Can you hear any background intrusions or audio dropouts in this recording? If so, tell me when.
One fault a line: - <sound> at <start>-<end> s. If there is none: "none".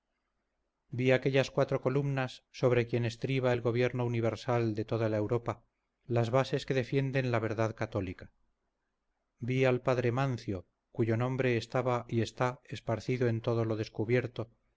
none